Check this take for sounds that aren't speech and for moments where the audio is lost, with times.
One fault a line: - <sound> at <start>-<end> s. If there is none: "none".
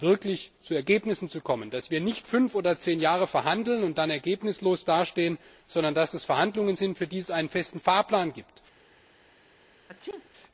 - sneeze at 9.9-10.3 s